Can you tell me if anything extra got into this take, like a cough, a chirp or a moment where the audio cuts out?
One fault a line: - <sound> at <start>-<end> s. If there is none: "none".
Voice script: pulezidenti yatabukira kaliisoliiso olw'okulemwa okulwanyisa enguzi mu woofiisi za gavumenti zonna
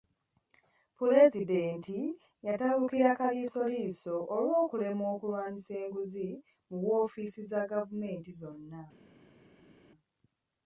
none